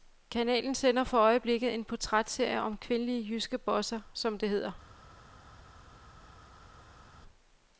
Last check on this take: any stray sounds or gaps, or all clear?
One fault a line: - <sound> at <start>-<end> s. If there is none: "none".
none